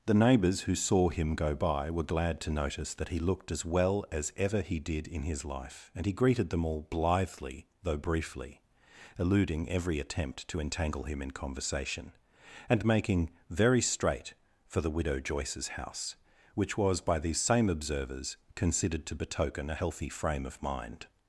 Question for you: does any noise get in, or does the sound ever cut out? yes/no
no